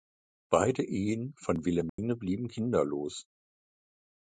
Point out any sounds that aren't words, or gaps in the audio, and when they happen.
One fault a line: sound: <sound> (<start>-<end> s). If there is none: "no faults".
sound: dropout (1.9-2.0 s)